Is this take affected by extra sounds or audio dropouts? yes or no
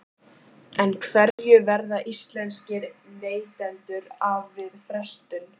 yes